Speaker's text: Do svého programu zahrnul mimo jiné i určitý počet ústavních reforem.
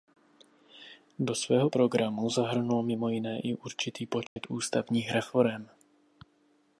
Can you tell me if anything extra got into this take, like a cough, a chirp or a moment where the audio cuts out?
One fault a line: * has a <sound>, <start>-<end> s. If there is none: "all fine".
* has a dropout, 4.3-4.4 s